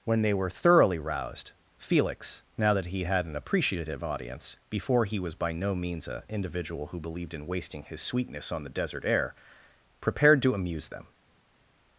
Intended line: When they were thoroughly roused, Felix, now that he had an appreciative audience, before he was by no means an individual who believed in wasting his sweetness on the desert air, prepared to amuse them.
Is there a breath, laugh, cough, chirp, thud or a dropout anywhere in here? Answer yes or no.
no